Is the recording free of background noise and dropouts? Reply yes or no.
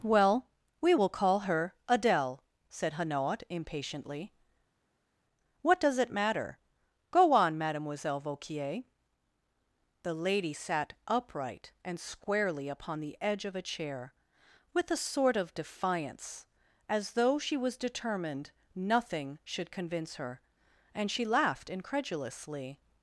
yes